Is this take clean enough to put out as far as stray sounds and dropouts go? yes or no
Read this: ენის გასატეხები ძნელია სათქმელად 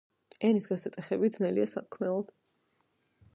yes